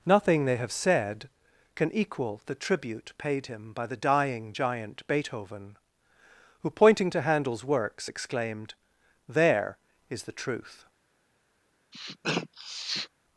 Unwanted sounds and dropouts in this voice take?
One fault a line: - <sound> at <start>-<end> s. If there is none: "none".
- sniff at 11.9-13.1 s